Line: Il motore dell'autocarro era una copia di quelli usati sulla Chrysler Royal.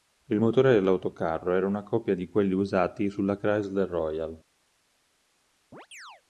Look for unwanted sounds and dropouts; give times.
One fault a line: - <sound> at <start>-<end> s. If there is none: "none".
- chirp at 5.7-6.2 s